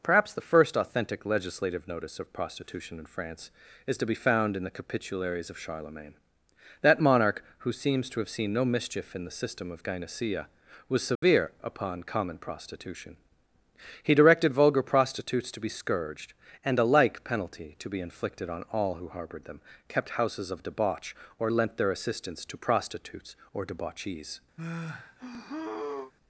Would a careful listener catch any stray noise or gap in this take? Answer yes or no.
yes